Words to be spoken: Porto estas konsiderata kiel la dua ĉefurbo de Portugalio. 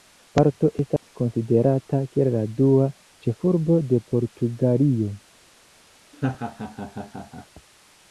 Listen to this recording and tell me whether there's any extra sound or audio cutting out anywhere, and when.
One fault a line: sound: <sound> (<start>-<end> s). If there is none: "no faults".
sound: dropout (1.0-1.0 s)
sound: laugh (6.1-7.5 s)